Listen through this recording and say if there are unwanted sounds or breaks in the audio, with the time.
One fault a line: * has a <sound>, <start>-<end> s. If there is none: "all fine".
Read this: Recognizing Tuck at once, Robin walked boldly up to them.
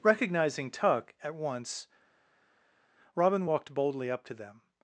all fine